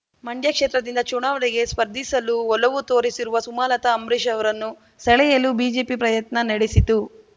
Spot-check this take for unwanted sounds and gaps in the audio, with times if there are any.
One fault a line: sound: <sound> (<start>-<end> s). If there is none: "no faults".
no faults